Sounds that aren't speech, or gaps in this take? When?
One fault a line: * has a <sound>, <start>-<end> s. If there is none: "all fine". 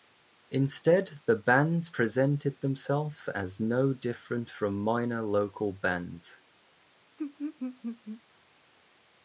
* has a laugh, 7.2-8.2 s